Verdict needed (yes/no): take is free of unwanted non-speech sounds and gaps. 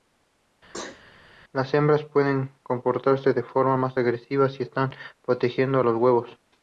no